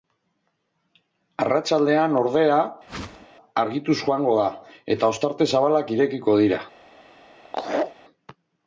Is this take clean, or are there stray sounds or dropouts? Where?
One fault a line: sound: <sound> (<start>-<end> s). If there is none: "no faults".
sound: whoosh (2.9-3.3 s)
sound: laugh (7.4-8.0 s)